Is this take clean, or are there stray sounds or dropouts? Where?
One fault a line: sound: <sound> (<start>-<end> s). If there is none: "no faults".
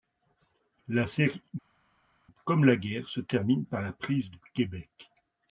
no faults